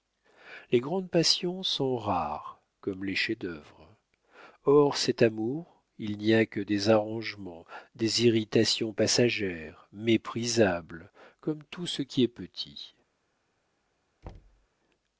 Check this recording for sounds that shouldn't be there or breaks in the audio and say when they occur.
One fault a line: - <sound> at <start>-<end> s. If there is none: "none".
- thud at 14.2-14.7 s